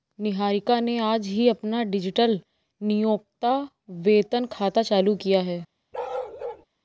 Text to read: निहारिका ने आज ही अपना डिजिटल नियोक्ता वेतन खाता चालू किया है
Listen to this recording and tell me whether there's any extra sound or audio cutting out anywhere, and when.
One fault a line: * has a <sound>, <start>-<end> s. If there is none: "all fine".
* has a bark, 5.9-6.7 s